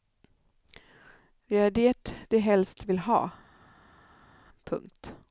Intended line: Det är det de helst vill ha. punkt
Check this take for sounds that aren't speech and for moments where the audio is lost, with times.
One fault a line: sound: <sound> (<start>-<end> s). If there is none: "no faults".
no faults